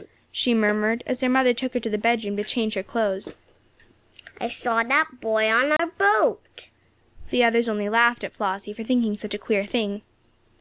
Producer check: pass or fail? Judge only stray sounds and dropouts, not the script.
fail